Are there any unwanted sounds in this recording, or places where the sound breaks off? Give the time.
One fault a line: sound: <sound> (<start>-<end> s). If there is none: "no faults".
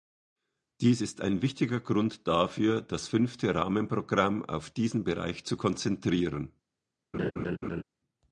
sound: laugh (7.1-7.8 s)